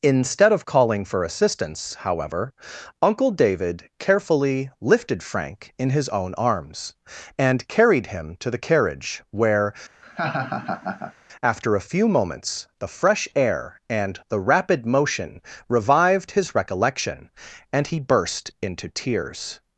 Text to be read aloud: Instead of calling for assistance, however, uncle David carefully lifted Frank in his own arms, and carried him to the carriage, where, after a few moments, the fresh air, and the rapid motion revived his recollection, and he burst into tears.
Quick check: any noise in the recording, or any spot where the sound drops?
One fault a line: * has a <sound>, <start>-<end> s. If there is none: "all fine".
* has a laugh, 10.0-11.1 s